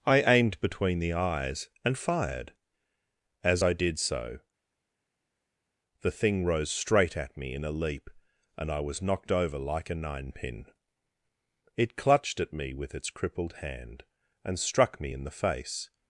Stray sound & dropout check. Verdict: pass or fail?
pass